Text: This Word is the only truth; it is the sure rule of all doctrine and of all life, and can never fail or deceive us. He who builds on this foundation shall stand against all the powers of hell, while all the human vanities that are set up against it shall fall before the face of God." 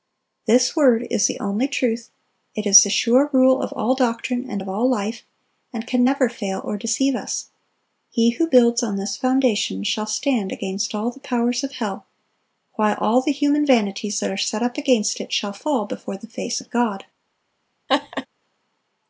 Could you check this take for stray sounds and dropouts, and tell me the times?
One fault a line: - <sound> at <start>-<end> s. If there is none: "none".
- laugh at 17.9-18.3 s